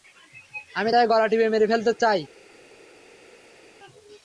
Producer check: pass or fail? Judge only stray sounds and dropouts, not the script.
pass